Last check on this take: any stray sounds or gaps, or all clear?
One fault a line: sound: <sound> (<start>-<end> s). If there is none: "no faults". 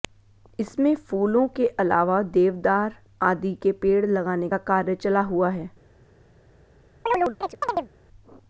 sound: chirp (7.1-7.9 s)